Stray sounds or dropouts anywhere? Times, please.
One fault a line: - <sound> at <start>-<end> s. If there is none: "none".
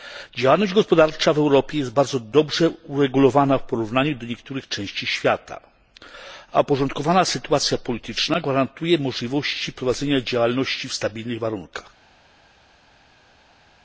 none